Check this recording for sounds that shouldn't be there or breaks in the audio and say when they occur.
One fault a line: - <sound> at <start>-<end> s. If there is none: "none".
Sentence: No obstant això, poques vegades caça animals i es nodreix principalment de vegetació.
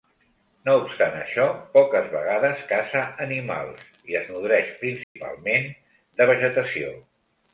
- dropout at 5.0-5.2 s